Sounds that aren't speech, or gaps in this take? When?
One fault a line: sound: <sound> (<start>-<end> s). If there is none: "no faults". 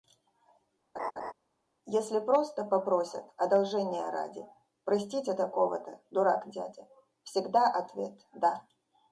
sound: laugh (0.9-1.3 s)